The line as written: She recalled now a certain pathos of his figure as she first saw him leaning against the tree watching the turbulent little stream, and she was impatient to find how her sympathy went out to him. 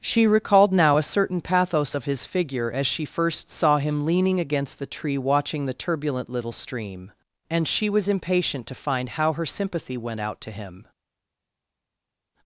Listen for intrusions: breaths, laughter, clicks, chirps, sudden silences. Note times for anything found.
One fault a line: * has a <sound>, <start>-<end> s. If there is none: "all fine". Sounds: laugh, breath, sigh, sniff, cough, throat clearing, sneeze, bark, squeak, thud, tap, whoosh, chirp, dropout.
all fine